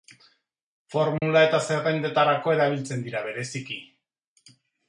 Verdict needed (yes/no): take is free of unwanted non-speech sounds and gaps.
no